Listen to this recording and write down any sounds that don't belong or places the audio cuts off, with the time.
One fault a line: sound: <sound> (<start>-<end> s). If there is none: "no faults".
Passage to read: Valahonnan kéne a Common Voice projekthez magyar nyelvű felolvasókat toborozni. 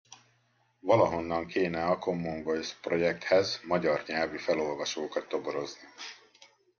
no faults